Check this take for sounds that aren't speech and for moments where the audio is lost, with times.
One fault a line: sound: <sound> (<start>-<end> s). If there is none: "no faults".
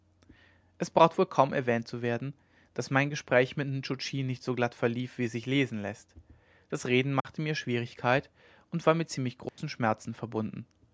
sound: dropout (7.2-7.2 s)
sound: dropout (9.5-9.6 s)